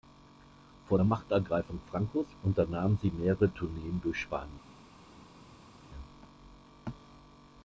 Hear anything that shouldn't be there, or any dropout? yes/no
no